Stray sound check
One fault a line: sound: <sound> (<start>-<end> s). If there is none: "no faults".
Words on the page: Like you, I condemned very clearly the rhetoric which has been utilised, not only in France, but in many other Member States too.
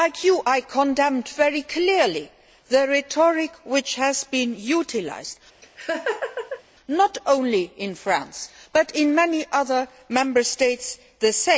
sound: laugh (5.6-6.6 s)